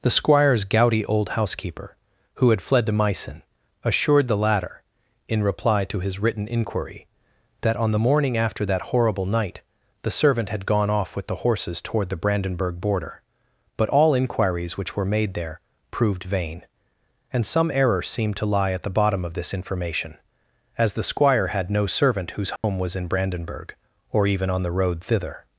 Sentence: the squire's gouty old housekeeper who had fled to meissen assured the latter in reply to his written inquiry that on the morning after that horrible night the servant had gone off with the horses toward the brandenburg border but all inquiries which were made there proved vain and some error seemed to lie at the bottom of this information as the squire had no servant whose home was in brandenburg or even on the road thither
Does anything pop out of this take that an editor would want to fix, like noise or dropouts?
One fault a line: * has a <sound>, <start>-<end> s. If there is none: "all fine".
* has a dropout, 22.6-22.6 s